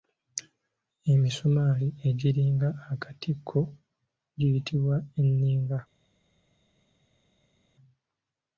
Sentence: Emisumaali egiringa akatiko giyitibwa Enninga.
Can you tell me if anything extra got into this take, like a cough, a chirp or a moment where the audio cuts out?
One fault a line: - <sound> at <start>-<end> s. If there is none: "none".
none